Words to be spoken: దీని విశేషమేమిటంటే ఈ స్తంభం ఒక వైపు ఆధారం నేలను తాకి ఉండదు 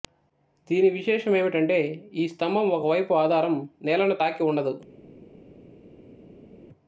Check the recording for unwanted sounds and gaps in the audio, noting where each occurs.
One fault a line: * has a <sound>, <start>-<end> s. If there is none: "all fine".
all fine